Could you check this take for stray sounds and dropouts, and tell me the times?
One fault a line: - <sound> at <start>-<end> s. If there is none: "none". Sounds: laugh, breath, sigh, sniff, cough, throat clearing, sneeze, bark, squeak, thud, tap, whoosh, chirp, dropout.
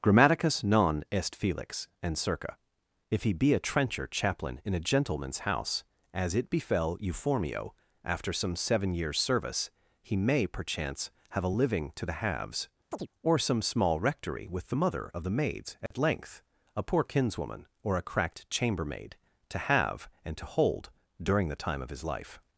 - chirp at 12.9-13.1 s
- dropout at 15.9-15.9 s